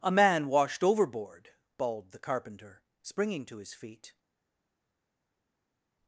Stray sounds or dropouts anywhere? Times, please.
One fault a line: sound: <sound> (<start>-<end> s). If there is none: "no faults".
no faults